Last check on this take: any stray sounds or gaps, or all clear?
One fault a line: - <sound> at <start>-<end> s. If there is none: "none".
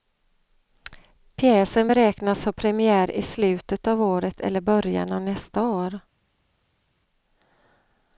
none